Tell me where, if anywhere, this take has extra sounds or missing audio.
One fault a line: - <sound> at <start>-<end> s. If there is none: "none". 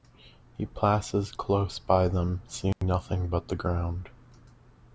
- dropout at 2.7-2.8 s